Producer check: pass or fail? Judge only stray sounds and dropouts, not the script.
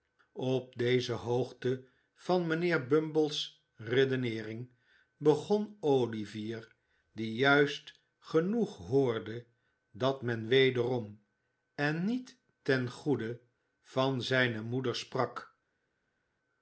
pass